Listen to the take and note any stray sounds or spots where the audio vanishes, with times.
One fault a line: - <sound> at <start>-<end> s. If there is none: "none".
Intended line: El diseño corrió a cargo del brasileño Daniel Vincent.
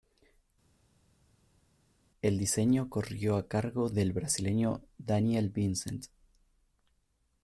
none